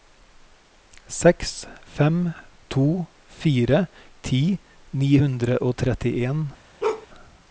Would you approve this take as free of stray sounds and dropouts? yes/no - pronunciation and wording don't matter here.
no